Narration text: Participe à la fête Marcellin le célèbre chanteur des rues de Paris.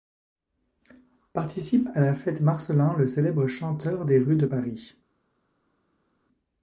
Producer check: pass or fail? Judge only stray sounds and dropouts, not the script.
pass